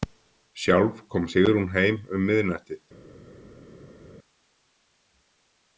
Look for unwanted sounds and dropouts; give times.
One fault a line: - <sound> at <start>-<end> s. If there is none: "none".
none